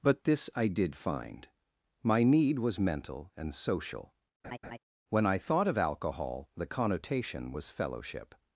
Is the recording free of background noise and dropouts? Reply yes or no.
no